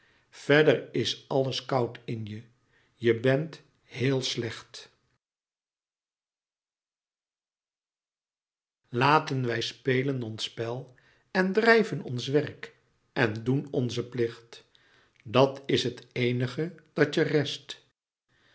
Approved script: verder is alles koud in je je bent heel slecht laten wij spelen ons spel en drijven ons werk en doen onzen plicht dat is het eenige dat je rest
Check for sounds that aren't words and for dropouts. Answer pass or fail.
pass